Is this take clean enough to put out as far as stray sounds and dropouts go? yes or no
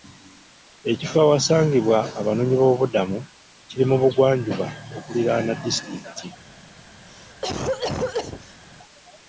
no